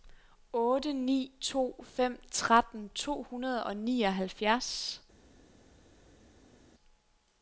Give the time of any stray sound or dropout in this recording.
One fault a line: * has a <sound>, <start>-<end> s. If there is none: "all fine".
all fine